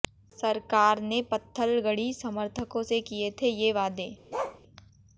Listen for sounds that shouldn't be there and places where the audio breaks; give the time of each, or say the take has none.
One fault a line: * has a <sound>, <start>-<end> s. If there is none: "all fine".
* has a bark, 4.3-4.6 s